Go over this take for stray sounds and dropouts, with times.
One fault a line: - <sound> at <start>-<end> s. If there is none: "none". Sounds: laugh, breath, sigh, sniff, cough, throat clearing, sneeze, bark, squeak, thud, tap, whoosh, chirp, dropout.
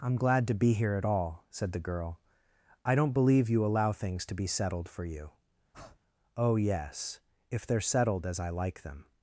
- breath at 5.7-6.0 s